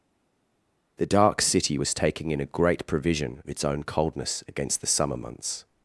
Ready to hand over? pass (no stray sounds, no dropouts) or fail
pass